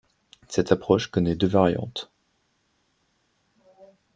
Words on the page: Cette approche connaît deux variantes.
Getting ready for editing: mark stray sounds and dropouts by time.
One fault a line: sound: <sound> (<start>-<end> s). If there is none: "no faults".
no faults